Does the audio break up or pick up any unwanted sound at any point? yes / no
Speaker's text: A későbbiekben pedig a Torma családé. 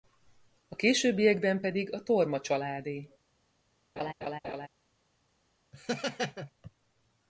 yes